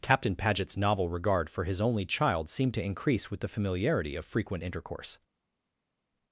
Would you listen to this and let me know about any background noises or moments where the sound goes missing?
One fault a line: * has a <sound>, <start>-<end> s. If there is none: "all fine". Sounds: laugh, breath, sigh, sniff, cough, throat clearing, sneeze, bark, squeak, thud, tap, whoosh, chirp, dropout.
all fine